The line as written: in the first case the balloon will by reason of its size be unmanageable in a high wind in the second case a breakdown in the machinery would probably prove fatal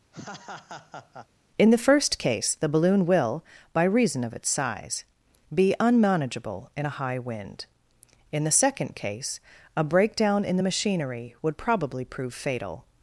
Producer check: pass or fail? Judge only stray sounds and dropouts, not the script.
fail